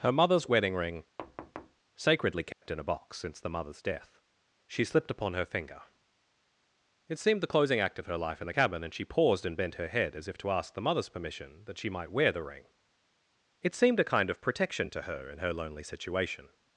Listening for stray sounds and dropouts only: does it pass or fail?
fail